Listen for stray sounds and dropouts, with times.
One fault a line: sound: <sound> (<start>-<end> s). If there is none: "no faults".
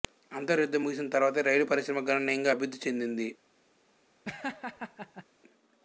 sound: laugh (4.2-5.2 s)